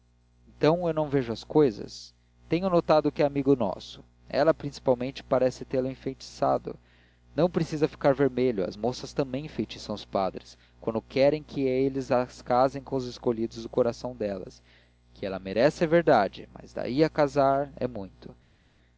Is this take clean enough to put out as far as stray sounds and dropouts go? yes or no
yes